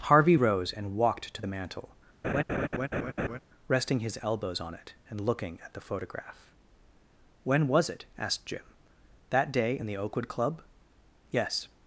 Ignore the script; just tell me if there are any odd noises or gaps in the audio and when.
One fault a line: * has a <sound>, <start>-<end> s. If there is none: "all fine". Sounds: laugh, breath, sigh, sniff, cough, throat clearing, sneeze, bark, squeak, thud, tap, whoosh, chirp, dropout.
* has a laugh, 2.2-3.4 s